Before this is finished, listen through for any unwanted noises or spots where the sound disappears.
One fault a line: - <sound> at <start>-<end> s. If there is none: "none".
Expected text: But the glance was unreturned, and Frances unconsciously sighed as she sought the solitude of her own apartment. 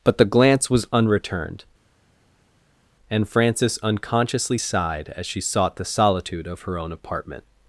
none